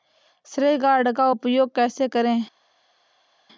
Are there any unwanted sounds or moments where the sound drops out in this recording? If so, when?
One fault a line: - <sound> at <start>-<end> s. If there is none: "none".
none